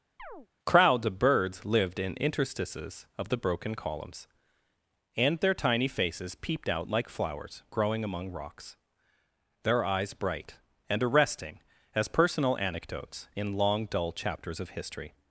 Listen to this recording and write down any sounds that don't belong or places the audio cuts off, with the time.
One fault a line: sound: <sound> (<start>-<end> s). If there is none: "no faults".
sound: chirp (0.2-0.5 s)